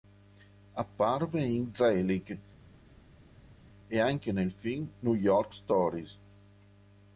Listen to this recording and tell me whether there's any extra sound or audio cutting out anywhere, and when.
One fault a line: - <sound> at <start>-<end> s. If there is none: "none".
none